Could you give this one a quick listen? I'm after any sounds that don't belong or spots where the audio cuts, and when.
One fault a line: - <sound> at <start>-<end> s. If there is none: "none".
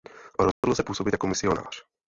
- dropout at 0.5-0.6 s